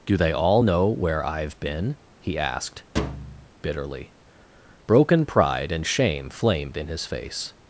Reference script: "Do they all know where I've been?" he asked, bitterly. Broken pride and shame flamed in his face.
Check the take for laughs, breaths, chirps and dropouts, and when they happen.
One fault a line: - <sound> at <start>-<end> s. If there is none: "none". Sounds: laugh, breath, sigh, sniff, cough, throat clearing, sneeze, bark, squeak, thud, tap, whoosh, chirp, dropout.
- thud at 3.0-3.5 s